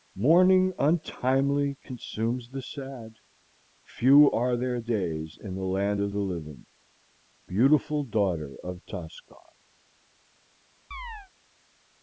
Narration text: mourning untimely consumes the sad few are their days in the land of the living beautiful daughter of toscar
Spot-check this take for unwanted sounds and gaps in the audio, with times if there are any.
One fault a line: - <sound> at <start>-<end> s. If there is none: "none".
- chirp at 10.9-11.3 s